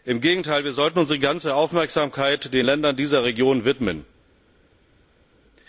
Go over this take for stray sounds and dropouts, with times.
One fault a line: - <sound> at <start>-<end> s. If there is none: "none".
none